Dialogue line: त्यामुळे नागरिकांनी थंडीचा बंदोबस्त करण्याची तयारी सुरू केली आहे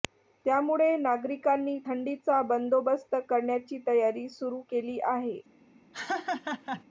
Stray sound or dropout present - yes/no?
yes